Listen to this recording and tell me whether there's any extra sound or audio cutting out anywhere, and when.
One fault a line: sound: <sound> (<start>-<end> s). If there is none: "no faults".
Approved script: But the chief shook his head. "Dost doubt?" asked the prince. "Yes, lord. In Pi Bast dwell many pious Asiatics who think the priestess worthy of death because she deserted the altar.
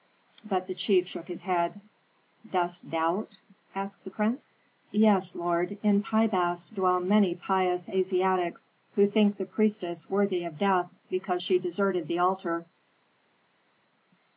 no faults